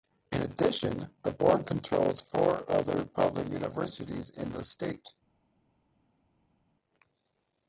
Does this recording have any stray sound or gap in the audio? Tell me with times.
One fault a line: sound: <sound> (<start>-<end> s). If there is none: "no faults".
no faults